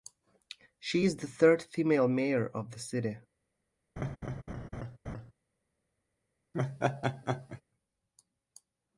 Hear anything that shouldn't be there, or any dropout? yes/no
yes